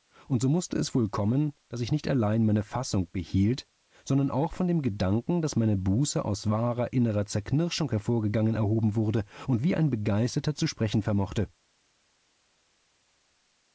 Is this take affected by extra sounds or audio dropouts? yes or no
no